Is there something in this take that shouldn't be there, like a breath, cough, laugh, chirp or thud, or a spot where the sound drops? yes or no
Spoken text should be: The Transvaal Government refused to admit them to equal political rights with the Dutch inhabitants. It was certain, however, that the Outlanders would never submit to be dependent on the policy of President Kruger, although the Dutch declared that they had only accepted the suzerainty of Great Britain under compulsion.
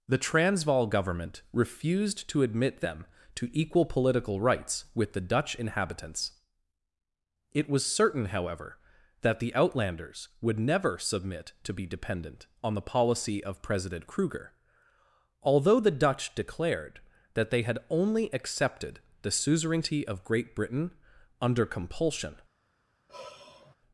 yes